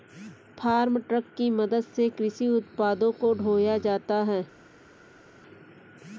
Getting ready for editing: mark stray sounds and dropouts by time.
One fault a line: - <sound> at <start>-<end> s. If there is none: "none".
none